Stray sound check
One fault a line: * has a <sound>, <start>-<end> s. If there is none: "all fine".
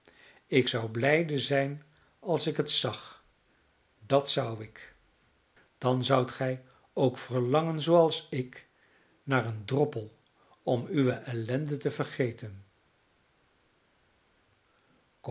all fine